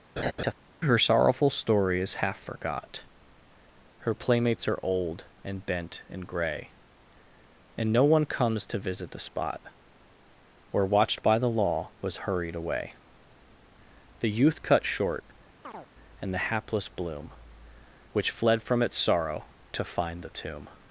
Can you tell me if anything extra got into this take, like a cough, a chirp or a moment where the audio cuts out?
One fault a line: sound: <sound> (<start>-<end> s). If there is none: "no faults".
sound: laugh (0.2-0.5 s)
sound: chirp (15.6-15.9 s)